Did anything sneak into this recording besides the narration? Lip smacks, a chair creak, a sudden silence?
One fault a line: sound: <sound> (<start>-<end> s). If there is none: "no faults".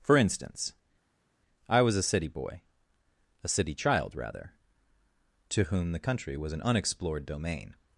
no faults